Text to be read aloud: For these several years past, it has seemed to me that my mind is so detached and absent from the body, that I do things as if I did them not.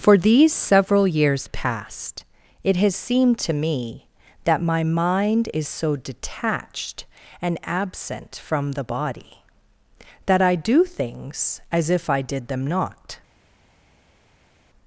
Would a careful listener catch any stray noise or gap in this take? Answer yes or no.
no